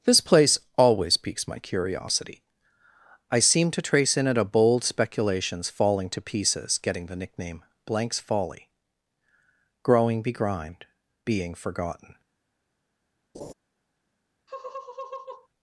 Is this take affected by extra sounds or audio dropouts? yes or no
yes